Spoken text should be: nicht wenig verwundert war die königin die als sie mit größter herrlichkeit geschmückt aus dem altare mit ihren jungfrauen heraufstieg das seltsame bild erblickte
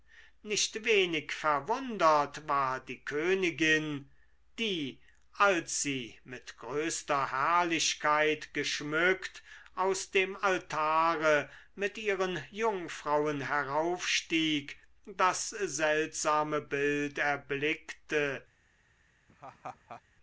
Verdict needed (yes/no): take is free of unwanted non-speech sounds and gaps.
no